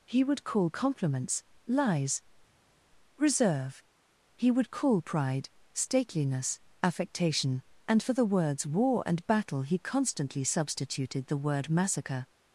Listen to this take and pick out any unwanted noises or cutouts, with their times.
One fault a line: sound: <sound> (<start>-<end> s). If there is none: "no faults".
no faults